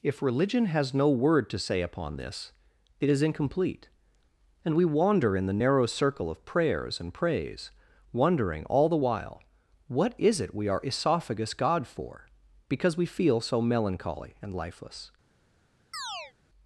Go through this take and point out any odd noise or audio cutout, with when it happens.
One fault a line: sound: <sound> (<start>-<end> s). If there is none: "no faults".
sound: chirp (15.9-16.3 s)